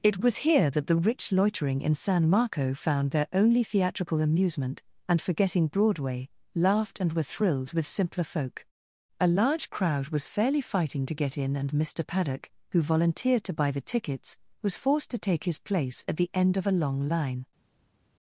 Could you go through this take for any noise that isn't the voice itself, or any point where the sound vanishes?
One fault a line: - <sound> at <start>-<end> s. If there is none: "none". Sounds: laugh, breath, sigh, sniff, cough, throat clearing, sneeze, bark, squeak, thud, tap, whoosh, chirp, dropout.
none